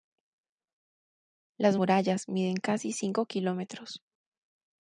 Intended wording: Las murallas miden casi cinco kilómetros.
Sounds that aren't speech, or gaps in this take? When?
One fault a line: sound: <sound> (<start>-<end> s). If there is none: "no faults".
no faults